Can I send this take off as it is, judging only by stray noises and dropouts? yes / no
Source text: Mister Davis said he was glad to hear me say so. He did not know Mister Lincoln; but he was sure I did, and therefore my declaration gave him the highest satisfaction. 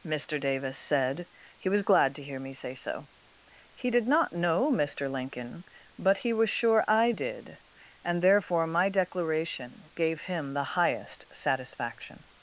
yes